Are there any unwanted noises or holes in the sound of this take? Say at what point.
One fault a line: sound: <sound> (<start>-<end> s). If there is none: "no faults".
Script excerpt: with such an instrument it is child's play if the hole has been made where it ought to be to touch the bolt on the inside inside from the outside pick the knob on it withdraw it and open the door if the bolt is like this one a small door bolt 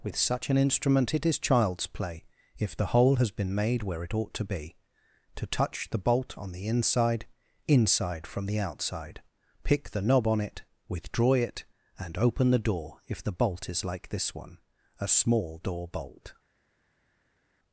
no faults